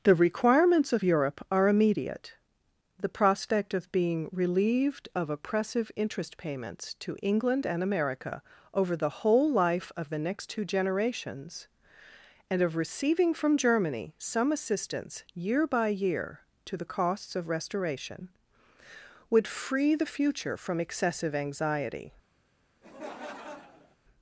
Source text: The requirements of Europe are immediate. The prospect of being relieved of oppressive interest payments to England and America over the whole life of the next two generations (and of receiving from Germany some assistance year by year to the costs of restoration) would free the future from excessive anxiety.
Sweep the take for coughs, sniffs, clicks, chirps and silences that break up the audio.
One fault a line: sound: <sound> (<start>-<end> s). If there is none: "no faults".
sound: laugh (22.8-24.0 s)